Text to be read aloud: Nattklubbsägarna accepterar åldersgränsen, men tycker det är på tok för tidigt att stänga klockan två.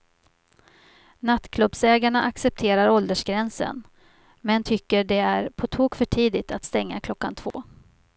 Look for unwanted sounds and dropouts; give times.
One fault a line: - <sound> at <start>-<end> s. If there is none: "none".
- dropout at 7.5-7.5 s